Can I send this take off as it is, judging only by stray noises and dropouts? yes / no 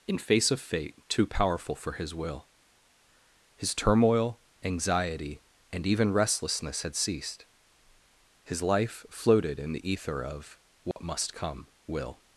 no